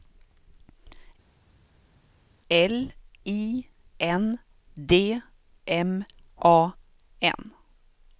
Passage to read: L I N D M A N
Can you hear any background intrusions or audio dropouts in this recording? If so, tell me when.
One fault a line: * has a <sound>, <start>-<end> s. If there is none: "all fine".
all fine